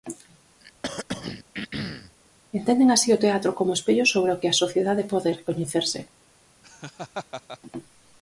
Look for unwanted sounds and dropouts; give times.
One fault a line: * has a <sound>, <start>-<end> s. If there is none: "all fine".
* has a throat clearing, 0.6-2.2 s
* has a laugh, 6.6-7.6 s